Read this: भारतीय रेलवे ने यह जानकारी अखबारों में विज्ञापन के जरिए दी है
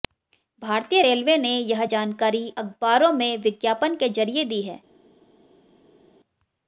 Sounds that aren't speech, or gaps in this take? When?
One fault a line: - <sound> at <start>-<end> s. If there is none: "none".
none